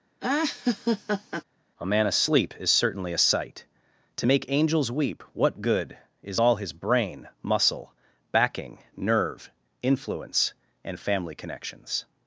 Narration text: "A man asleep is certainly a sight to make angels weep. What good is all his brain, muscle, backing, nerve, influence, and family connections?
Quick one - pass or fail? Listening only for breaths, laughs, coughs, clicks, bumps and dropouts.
fail